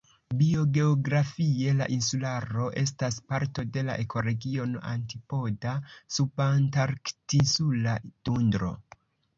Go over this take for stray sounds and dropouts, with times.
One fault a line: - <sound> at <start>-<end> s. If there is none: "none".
none